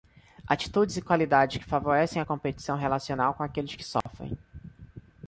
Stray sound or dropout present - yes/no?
yes